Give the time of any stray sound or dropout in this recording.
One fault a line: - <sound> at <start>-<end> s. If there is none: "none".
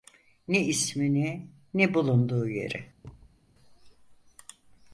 - thud at 3.0-3.4 s